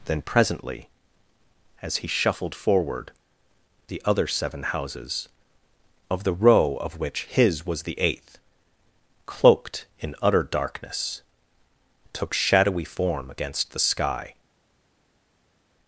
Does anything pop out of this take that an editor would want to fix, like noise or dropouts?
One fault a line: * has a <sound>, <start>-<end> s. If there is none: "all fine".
all fine